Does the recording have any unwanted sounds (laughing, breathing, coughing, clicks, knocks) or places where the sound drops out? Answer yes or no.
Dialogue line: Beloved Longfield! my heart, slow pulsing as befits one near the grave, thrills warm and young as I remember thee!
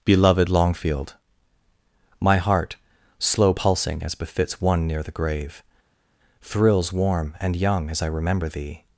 no